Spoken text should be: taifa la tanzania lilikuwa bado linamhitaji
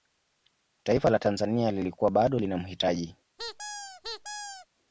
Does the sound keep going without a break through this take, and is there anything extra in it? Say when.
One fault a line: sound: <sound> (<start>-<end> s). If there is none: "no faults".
sound: squeak (3.4-4.7 s)